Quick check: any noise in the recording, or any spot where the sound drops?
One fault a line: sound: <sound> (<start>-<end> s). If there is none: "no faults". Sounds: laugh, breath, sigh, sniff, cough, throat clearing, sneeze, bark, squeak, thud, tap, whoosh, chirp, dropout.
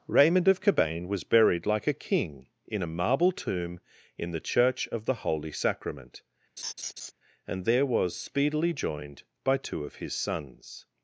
sound: laugh (6.6-7.1 s)